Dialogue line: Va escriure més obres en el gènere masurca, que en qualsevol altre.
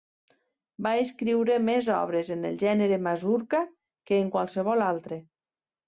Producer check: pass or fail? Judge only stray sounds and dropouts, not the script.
pass